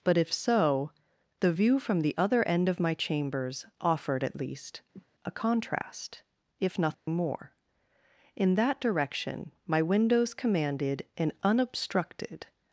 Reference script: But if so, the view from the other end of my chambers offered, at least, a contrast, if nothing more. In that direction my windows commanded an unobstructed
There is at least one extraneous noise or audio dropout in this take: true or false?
true